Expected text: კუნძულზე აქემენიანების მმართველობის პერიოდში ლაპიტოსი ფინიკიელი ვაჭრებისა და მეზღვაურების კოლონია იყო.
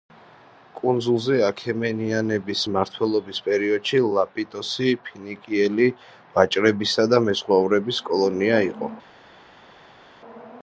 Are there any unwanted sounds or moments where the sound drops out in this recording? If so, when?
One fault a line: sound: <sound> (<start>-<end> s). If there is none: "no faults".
no faults